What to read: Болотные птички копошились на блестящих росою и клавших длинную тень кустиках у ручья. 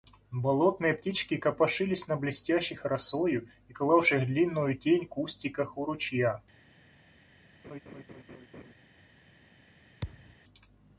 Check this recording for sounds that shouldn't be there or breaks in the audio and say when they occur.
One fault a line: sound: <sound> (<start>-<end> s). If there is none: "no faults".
sound: laugh (7.6-8.7 s)
sound: thud (10.0-10.4 s)